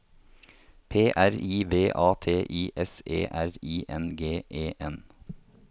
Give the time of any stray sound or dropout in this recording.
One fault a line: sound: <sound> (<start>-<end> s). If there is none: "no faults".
no faults